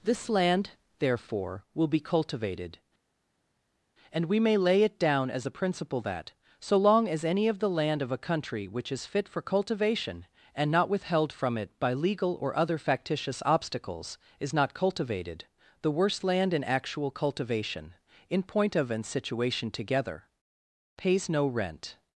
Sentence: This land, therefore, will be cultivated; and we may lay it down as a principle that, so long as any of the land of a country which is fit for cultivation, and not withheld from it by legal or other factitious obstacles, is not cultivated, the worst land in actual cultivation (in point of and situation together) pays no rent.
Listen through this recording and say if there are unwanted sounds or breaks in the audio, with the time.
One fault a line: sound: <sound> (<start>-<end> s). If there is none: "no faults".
no faults